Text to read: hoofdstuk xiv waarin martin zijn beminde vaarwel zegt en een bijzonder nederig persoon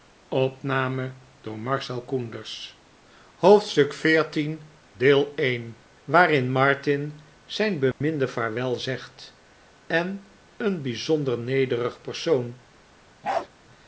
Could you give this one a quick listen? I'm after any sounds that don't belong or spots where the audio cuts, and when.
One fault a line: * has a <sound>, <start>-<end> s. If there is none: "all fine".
* has a dropout, 7.9-8.0 s
* has a bark, 13.2-13.5 s